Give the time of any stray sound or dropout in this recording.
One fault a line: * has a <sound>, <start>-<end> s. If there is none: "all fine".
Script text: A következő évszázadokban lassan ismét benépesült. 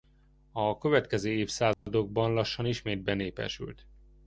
* has a dropout, 1.7-1.9 s